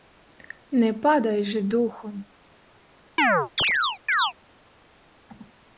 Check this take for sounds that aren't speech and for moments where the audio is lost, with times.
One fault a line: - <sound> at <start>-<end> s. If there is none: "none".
- chirp at 3.2-4.3 s